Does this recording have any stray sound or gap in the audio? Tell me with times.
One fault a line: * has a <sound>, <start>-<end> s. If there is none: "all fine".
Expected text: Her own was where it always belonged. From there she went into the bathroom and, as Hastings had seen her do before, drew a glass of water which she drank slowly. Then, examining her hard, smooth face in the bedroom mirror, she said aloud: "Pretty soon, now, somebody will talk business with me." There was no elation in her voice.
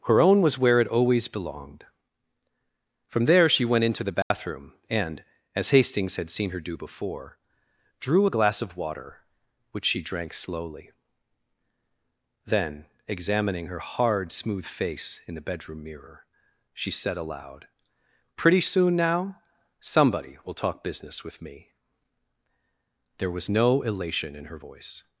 * has a dropout, 4.2-4.3 s